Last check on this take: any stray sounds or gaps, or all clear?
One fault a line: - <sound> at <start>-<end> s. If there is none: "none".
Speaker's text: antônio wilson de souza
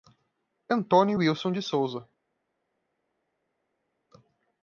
none